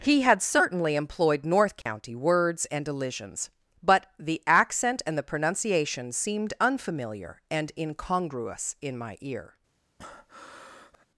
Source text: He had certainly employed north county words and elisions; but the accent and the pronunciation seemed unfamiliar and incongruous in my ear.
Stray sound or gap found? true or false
true